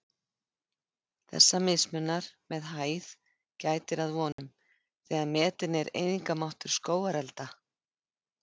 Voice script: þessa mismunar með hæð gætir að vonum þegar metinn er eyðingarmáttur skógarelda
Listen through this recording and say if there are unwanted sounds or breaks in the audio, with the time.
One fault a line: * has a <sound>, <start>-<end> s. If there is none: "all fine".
* has a dropout, 4.3-4.4 s